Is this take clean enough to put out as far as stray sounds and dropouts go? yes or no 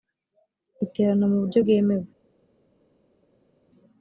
yes